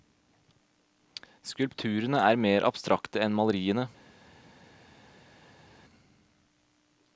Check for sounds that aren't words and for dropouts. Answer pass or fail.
pass